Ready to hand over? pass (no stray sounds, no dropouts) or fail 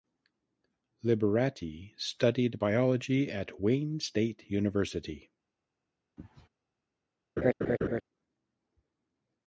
fail